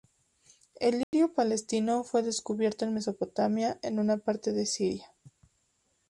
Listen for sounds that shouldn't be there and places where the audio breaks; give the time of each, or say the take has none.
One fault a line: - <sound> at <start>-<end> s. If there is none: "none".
- dropout at 1.0-1.1 s